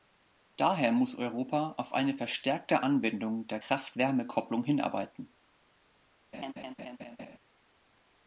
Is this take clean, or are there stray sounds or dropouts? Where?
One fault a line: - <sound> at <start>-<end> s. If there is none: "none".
- laugh at 6.3-7.4 s